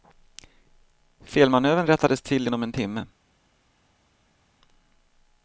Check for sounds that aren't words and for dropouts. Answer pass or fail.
pass